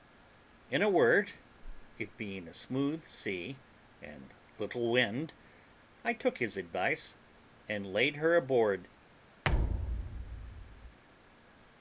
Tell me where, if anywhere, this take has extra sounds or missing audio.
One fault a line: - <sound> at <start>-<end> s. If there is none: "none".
- thud at 9.4-11.0 s